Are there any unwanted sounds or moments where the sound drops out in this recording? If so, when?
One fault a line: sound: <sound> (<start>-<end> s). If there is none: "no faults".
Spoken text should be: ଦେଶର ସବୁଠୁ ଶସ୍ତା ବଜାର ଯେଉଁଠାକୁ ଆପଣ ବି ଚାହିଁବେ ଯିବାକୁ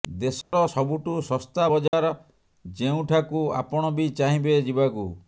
sound: dropout (0.4-0.5 s)
sound: dropout (1.9-1.9 s)